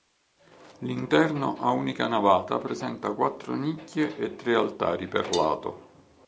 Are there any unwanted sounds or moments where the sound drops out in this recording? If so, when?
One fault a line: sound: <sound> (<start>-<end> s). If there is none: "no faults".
no faults